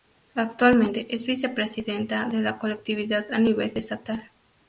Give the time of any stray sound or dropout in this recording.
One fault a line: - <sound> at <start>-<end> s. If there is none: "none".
none